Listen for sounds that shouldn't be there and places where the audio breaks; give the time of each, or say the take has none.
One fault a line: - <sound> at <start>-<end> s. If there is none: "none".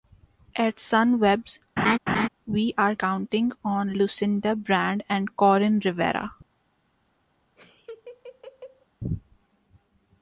- laugh at 1.8-2.3 s
- laugh at 7.6-8.9 s